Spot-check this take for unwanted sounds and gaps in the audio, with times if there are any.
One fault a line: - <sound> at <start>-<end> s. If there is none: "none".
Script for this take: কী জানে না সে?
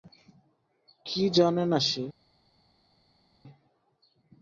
none